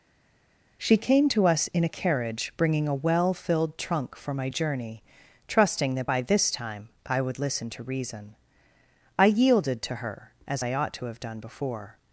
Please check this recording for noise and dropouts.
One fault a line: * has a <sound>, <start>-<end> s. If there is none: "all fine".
all fine